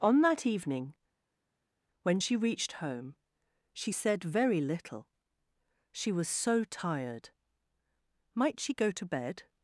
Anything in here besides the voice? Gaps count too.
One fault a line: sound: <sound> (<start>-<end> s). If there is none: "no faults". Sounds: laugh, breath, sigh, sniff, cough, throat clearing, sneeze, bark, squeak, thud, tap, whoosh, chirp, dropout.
no faults